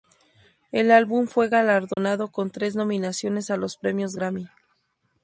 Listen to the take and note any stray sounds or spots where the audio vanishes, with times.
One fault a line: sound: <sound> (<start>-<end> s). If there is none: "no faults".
sound: dropout (1.9-2.0 s)